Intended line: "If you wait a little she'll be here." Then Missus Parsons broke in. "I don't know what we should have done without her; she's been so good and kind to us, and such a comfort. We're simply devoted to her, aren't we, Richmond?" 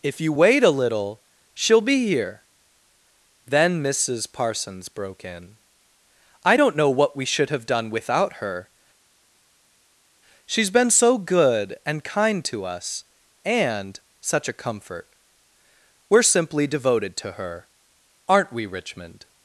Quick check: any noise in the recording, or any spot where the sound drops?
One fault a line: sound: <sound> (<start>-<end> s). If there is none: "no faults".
no faults